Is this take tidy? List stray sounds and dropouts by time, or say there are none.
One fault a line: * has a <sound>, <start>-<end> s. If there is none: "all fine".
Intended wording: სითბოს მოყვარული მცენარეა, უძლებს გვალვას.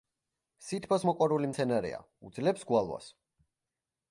all fine